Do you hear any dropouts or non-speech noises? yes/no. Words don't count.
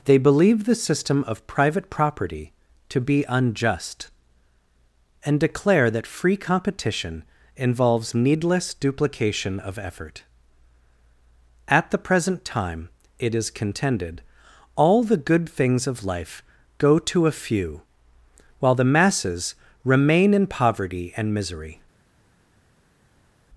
no